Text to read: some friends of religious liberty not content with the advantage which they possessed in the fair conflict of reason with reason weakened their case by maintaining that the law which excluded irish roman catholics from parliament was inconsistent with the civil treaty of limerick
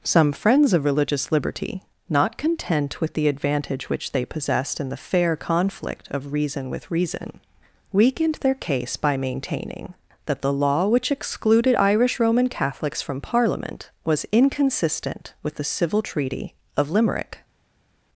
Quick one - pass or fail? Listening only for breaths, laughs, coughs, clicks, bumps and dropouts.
pass